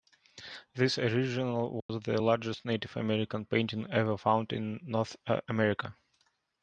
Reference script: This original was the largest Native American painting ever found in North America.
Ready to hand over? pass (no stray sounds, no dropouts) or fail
fail